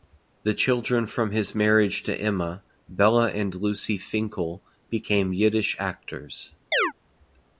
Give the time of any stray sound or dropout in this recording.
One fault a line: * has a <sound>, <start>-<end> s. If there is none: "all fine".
* has a chirp, 6.7-6.9 s